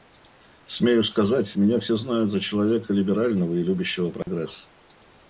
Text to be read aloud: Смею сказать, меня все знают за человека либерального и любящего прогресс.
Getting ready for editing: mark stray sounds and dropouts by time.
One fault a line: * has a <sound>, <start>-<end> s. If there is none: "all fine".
* has a dropout, 4.2-4.3 s